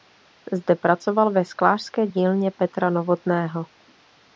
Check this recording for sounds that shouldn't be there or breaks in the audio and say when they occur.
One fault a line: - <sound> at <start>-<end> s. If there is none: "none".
none